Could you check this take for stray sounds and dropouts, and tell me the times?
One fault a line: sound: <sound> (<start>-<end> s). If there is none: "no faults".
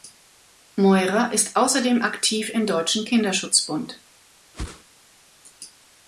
sound: whoosh (4.5-4.8 s)